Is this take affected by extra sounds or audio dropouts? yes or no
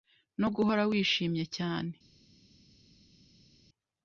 no